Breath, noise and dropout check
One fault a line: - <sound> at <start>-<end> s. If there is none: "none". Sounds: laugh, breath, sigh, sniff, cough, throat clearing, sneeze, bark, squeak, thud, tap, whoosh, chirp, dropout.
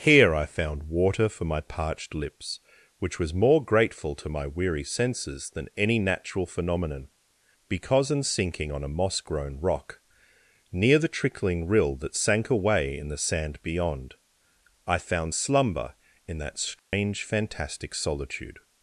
- dropout at 16.8-16.9 s